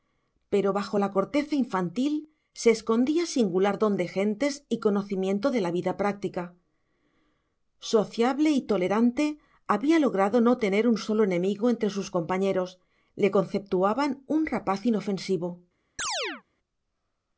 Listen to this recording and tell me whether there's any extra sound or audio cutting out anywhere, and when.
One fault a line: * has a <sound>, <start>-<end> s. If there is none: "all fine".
* has a chirp, 16.0-16.4 s